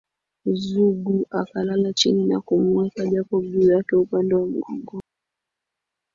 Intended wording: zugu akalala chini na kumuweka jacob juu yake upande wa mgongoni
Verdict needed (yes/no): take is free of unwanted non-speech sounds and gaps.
yes